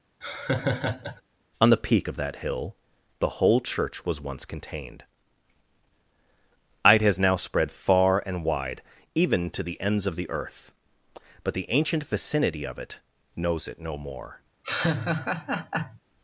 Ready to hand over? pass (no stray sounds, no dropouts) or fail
fail